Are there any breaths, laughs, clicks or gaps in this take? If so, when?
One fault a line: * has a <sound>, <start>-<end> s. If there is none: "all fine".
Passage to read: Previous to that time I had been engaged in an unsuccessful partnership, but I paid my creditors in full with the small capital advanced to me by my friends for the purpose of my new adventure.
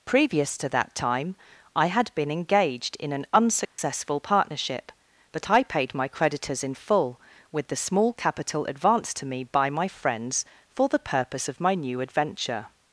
* has a dropout, 3.7-3.8 s